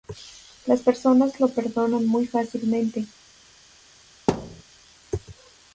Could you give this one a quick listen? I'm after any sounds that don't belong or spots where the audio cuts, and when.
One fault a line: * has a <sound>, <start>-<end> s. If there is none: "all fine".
* has a thud, 4.3-4.6 s